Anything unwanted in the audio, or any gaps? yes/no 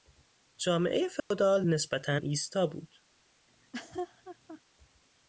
yes